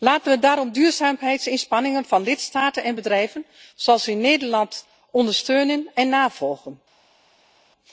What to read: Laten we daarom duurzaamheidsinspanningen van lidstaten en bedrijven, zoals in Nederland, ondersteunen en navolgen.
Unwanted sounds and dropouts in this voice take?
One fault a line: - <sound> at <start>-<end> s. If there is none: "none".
none